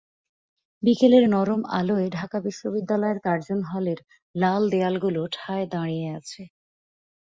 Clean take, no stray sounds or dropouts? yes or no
yes